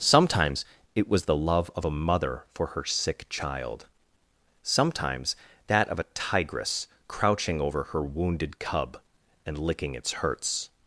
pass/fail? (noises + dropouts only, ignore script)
pass